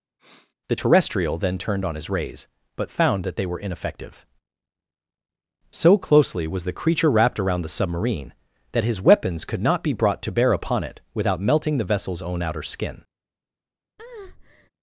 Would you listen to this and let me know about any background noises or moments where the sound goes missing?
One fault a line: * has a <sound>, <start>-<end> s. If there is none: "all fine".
* has a sniff, 0.2-0.5 s
* has a breath, 14.0-14.7 s